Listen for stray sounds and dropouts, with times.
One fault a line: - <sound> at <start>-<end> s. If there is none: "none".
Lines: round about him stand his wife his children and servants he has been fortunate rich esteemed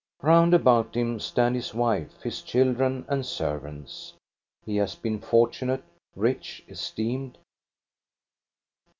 none